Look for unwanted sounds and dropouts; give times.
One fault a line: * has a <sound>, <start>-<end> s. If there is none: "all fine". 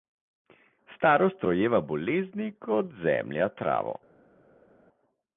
all fine